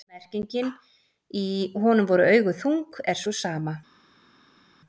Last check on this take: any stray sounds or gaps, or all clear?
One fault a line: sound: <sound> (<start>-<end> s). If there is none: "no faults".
no faults